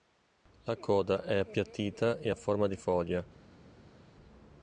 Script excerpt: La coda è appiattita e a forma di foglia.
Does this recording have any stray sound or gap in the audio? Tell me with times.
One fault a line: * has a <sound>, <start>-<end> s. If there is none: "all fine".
all fine